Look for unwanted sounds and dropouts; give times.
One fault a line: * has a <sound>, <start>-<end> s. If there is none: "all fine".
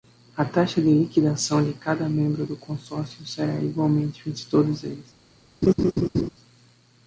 * has a laugh, 5.6-6.3 s